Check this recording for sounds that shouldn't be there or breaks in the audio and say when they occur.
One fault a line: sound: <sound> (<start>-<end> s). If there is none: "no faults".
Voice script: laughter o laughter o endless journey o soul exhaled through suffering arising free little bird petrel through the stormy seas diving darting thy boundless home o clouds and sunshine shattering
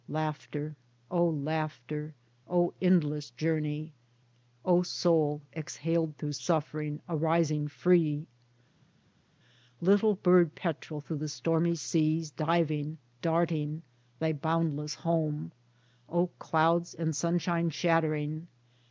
no faults